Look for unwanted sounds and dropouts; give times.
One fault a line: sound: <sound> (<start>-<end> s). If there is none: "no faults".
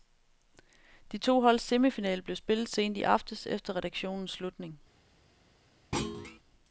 sound: thud (5.9-6.4 s)